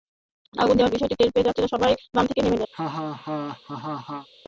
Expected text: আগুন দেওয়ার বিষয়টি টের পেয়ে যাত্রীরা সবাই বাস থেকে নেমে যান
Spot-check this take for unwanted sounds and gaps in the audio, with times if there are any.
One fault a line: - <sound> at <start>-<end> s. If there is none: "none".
- laugh at 2.7-4.3 s